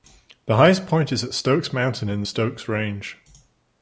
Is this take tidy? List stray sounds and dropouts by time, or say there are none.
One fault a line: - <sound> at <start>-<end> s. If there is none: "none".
none